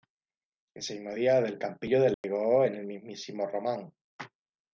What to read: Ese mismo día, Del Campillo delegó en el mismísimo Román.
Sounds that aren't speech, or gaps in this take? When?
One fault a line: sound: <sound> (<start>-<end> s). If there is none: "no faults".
sound: dropout (2.1-2.2 s)